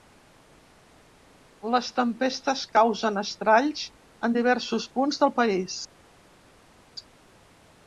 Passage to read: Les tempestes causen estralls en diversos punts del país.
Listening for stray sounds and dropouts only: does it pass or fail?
pass